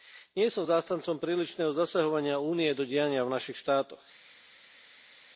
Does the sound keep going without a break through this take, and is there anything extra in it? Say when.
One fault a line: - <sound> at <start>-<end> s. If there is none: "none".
none